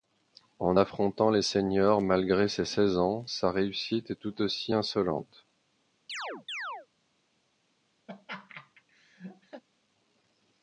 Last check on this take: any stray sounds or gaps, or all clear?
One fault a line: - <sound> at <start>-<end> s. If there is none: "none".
- chirp at 6.1-6.9 s
- laugh at 8.1-9.6 s